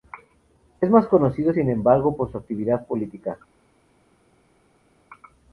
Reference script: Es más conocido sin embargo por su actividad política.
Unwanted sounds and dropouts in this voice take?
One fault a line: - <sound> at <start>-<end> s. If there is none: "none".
none